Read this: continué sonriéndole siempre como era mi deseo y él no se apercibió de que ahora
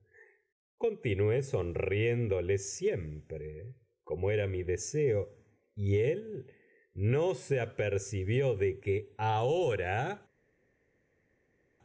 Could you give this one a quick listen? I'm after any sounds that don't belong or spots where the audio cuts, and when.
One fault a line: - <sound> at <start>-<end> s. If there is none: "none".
none